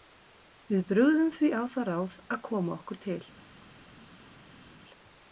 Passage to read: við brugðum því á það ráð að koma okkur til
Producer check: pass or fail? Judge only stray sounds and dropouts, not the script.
pass